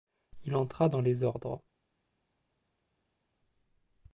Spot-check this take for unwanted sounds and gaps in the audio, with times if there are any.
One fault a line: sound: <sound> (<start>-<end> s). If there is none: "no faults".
no faults